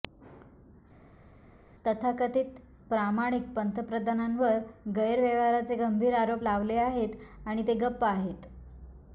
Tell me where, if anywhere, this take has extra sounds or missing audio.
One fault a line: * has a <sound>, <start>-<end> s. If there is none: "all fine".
all fine